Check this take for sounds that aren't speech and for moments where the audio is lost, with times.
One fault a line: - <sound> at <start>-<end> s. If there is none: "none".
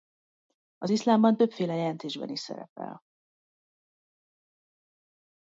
none